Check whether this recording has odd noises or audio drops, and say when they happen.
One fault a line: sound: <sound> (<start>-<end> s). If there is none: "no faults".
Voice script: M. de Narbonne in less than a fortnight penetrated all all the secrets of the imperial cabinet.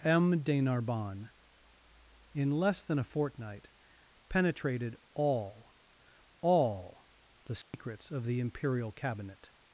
sound: dropout (7.6-7.7 s)